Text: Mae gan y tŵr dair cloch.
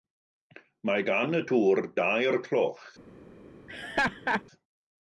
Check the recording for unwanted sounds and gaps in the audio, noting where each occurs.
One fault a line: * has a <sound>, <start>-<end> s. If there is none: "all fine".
* has a laugh, 3.7-4.4 s